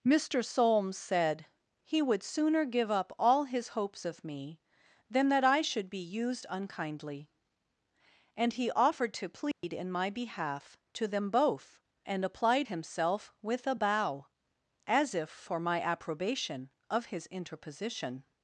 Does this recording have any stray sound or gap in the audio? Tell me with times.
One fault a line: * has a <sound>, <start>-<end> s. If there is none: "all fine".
* has a dropout, 9.5-9.6 s